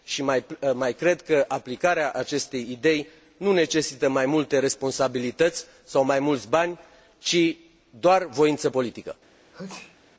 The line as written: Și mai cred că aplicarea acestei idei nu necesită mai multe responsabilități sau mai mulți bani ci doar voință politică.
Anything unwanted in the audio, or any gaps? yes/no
yes